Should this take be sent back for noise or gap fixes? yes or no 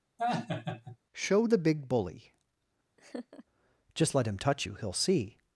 yes